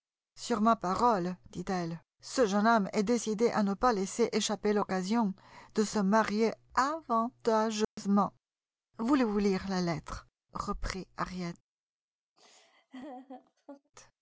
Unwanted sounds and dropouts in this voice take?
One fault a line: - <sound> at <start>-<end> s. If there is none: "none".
- dropout at 7.8-8.0 s
- laugh at 12.4-13.9 s